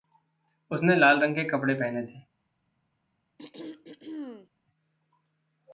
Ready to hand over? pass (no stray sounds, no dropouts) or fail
fail